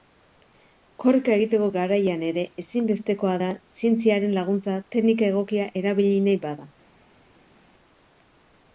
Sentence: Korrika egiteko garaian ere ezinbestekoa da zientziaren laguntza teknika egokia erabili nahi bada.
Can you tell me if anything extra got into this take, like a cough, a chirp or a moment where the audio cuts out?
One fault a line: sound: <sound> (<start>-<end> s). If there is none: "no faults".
no faults